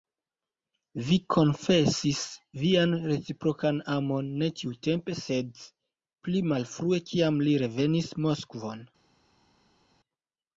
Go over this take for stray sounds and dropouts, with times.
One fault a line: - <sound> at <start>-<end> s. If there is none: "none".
none